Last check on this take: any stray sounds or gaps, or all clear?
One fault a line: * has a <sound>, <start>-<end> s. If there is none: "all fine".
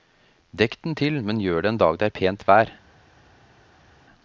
all fine